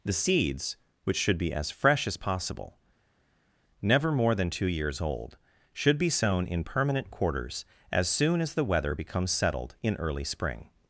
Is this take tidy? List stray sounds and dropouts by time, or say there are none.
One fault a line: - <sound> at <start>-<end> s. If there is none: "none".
none